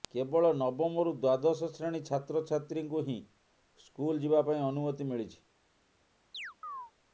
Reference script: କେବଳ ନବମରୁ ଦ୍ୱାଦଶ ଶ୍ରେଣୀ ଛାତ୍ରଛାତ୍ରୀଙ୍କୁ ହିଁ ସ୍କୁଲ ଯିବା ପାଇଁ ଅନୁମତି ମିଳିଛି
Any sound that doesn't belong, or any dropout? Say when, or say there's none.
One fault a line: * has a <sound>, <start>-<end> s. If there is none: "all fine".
* has a chirp, 6.3-6.9 s